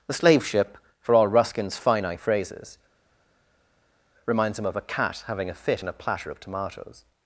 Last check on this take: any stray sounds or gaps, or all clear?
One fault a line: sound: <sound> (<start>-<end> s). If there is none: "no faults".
no faults